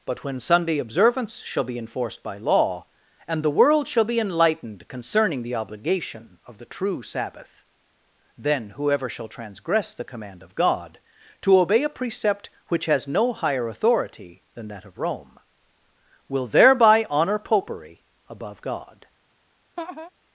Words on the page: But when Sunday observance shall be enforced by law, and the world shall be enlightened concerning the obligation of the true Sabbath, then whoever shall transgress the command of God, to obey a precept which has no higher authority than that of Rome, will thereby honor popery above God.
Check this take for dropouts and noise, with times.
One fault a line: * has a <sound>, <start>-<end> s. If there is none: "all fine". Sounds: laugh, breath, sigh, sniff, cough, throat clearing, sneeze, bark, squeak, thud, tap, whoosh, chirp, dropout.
* has a laugh, 19.8-20.1 s